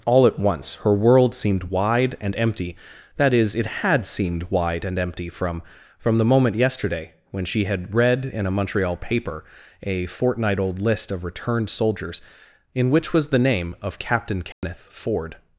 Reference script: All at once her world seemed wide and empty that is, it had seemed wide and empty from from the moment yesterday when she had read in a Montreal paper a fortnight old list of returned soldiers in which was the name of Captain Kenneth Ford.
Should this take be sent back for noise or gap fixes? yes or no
yes